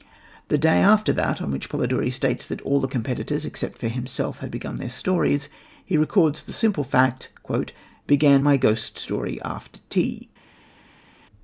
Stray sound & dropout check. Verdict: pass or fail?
pass